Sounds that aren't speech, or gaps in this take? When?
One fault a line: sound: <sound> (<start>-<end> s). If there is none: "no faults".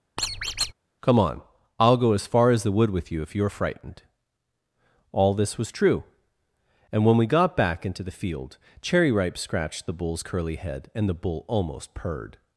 sound: squeak (0.2-0.7 s)